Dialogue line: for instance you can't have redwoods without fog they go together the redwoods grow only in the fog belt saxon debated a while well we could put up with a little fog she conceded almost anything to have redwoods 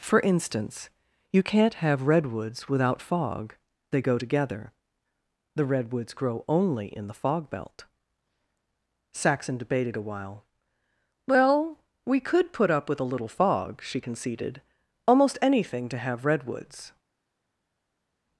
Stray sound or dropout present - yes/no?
no